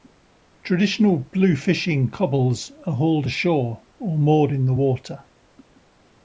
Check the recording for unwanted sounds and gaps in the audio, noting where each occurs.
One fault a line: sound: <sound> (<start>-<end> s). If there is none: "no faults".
no faults